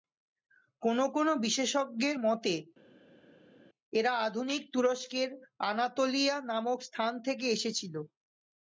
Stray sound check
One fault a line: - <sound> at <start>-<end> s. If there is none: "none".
none